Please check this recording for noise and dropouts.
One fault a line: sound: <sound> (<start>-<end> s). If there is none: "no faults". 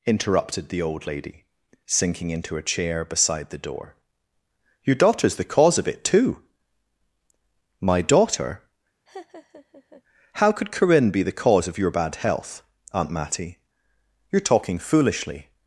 sound: laugh (9.1-10.0 s)